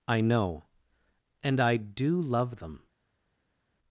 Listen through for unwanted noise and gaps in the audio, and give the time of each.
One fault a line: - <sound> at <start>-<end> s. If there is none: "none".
none